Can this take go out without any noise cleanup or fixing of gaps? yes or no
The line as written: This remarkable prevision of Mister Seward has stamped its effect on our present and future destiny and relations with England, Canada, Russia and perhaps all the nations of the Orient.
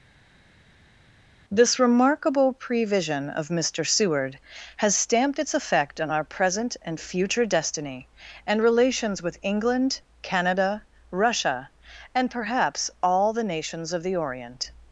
yes